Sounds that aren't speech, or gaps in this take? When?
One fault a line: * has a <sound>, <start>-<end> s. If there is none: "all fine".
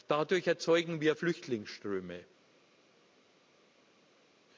all fine